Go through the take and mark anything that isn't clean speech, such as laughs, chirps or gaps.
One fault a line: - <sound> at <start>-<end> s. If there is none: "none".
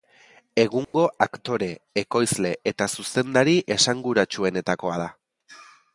- dropout at 0.8-0.9 s